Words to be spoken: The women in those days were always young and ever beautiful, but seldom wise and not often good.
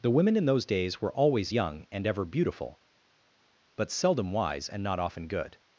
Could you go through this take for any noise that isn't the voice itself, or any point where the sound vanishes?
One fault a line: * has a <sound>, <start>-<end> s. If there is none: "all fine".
all fine